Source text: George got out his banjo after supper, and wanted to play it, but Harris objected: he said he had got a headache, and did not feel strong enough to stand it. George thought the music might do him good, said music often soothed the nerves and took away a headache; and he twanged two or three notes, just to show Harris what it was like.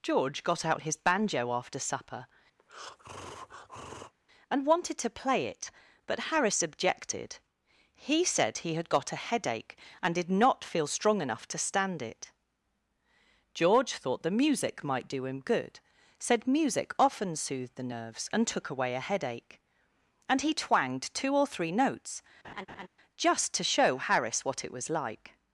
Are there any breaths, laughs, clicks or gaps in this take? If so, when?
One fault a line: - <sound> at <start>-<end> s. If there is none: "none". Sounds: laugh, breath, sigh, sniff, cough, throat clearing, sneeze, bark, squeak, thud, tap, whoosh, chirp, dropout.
- breath at 2.6-4.1 s
- laugh at 22.4-22.9 s